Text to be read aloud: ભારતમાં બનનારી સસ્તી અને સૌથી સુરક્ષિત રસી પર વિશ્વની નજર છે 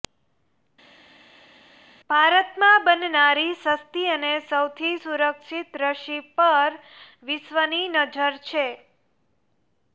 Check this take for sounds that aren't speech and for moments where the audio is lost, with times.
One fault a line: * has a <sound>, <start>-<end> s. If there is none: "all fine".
all fine